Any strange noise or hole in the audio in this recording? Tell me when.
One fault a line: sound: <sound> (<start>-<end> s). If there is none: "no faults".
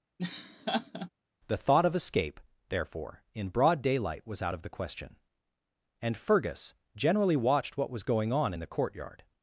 sound: laugh (0.2-1.1 s)